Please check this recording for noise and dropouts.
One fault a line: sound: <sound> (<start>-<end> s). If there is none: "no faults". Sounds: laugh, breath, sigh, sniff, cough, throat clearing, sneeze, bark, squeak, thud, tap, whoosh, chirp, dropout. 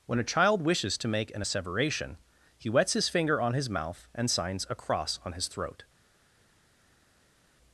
no faults